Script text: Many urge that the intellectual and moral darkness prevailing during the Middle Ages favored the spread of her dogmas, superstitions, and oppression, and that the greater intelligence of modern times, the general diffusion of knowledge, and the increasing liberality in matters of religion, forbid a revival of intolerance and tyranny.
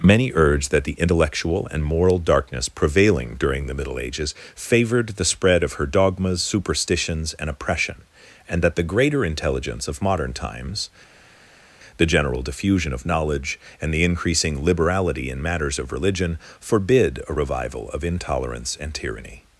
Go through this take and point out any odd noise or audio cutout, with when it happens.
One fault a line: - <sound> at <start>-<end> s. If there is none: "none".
none